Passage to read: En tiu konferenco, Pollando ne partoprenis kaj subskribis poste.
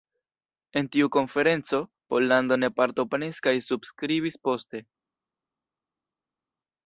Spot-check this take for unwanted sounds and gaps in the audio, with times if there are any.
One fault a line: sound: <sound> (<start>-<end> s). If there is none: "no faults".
no faults